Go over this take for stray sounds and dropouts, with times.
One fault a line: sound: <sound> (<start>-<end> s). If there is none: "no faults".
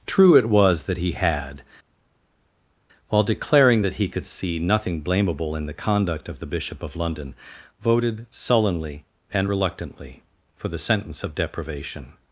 no faults